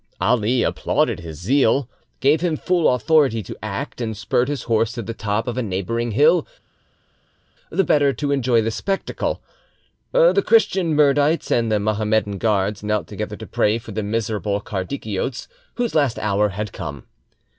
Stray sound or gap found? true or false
false